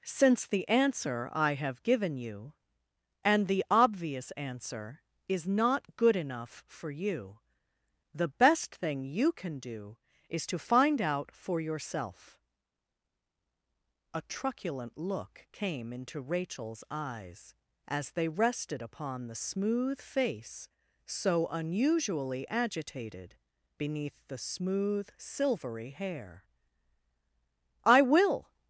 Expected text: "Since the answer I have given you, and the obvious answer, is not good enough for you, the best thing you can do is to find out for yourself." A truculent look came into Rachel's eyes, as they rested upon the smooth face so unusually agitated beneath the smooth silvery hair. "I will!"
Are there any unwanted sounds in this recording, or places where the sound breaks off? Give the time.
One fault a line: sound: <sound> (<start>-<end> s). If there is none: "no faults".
no faults